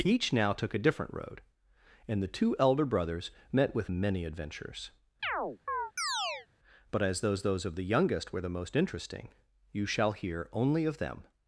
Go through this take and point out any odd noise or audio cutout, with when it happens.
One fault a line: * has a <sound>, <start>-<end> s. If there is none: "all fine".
* has a chirp, 5.2-6.5 s